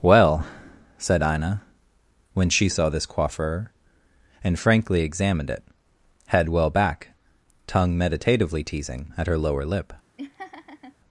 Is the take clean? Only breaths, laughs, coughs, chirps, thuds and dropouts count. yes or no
no